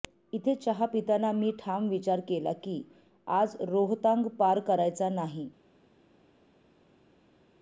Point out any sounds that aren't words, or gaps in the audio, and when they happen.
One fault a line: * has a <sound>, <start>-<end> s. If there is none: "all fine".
all fine